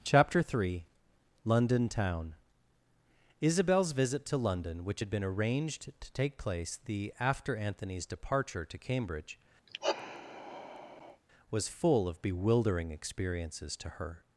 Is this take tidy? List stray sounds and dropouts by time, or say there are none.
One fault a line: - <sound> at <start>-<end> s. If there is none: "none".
- sigh at 9.7-11.2 s